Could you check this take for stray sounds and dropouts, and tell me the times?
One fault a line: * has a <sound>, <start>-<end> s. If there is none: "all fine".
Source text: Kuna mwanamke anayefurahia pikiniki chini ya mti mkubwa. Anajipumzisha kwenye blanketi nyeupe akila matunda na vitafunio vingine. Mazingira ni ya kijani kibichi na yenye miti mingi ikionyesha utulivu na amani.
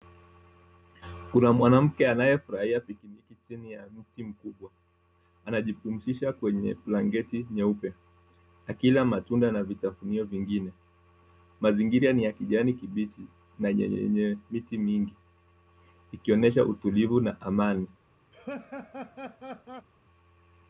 * has a laugh, 18.3-19.9 s